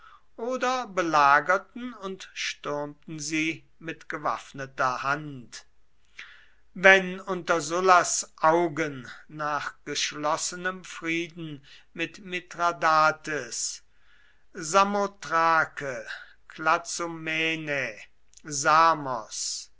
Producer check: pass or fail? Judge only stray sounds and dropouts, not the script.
pass